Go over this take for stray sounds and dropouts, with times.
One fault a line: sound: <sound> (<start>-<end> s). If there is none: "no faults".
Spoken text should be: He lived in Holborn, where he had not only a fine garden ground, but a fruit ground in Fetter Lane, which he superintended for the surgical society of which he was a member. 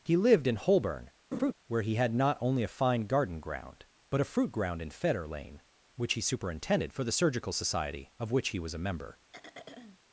sound: laugh (1.3-1.5 s)
sound: throat clearing (9.3-10.0 s)